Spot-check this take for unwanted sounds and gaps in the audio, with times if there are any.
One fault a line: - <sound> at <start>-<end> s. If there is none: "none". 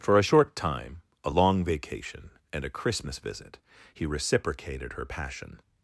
none